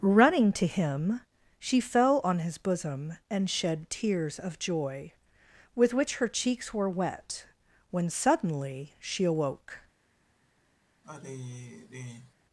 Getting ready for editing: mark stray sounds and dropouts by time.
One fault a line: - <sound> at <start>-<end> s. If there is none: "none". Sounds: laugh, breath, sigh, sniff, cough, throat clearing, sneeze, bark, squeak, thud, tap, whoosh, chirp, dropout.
- sigh at 11.0-12.3 s